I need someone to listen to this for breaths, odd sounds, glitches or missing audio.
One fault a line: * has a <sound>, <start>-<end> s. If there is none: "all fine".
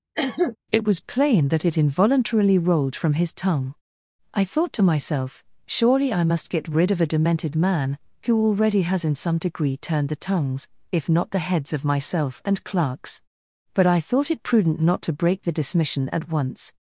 * has a cough, 0.1-0.6 s